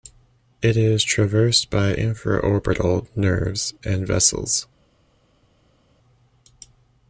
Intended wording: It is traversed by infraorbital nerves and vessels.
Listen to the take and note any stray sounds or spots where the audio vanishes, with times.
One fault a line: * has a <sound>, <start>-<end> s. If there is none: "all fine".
all fine